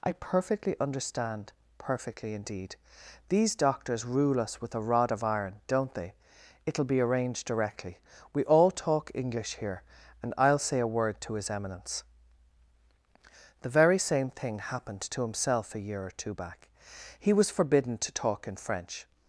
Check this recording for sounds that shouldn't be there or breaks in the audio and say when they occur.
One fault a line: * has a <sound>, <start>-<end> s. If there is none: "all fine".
all fine